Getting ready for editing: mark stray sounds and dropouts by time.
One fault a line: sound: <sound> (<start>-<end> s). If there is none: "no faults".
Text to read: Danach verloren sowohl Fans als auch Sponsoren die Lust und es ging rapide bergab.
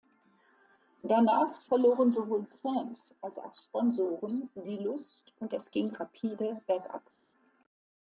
no faults